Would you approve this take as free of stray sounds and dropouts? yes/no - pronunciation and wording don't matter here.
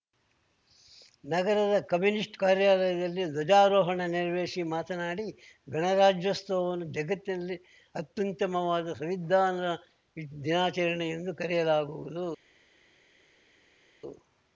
yes